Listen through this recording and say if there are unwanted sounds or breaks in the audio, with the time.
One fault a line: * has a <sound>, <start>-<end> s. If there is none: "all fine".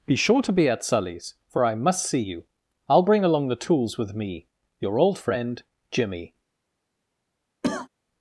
* has a cough, 7.6-7.9 s